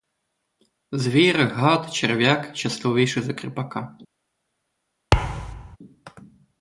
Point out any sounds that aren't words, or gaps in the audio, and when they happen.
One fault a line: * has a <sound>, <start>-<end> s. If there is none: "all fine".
* has a thud, 5.1-5.8 s